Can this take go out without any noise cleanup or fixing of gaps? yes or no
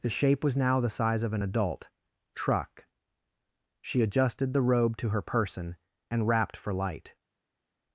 yes